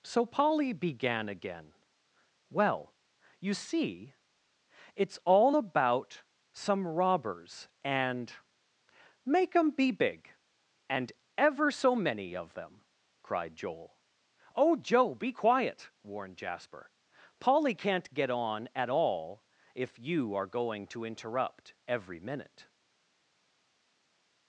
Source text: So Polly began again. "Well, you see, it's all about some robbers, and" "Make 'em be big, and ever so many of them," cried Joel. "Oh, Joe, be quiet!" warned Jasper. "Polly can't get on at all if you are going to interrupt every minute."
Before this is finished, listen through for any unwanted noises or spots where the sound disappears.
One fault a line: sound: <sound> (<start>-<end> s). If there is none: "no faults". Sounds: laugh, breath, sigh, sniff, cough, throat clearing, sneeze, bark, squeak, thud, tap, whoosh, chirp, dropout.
no faults